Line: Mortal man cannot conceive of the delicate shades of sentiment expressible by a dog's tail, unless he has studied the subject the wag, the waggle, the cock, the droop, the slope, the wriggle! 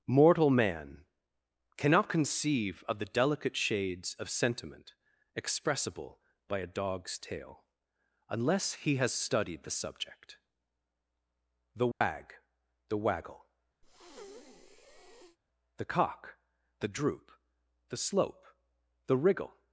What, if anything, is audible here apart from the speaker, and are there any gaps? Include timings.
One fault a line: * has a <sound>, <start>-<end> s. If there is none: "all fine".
* has a dropout, 11.9-12.0 s
* has a breath, 13.8-15.4 s